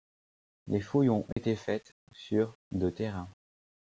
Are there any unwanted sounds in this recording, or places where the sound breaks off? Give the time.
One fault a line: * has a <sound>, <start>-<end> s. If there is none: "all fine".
* has a dropout, 1.3-1.4 s